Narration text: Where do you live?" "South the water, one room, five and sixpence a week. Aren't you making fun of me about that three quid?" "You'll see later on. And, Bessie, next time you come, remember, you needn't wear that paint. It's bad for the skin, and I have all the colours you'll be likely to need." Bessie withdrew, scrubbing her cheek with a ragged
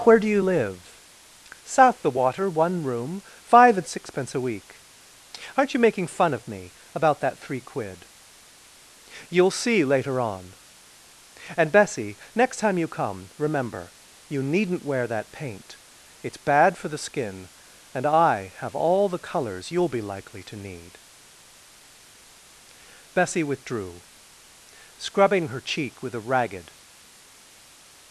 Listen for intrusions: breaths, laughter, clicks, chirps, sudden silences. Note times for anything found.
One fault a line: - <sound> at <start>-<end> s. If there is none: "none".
none